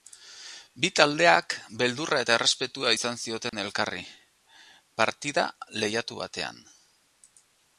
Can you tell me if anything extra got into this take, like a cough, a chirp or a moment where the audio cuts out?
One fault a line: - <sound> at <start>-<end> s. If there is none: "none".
- dropout at 3.5-3.5 s